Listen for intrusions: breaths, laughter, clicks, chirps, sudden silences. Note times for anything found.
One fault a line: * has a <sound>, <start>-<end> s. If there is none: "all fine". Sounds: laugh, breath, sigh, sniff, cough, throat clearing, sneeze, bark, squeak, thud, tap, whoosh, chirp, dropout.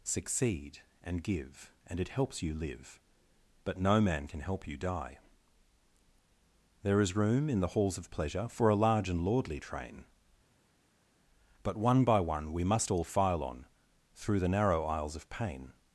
all fine